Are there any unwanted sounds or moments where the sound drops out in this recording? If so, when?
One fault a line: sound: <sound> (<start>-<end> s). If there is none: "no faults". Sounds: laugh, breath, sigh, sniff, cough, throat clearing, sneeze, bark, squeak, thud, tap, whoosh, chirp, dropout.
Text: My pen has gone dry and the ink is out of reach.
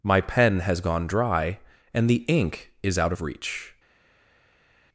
no faults